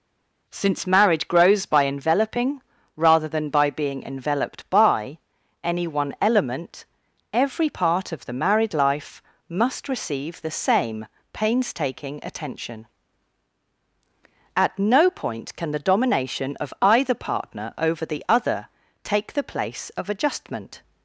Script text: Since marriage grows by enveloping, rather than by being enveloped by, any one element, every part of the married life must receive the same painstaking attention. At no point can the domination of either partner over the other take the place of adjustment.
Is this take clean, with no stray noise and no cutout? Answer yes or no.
yes